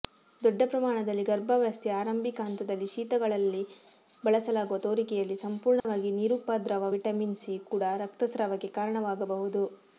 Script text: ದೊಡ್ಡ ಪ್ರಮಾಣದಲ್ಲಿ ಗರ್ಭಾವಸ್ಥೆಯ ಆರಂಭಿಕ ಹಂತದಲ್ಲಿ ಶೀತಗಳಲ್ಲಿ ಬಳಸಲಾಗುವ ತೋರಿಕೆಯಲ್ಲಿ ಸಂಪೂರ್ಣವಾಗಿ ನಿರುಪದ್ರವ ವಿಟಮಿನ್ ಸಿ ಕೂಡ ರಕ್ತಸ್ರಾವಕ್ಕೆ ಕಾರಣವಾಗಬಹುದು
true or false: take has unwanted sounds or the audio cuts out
true